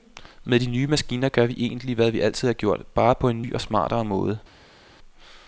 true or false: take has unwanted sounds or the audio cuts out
false